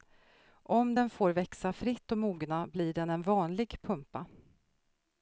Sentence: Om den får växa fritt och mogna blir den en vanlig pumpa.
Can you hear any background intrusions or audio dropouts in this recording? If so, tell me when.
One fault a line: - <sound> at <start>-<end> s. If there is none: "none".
none